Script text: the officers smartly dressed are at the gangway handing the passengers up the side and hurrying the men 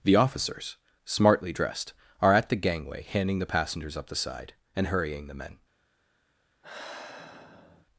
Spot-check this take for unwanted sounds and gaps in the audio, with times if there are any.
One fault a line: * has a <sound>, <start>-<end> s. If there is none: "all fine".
* has a sigh, 6.6-7.9 s